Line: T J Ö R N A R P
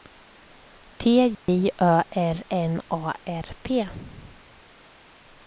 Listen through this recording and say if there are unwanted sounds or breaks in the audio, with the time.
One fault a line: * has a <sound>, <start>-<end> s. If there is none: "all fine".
* has a dropout, 1.3-1.5 s